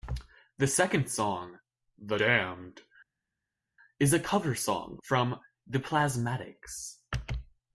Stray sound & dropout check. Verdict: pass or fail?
pass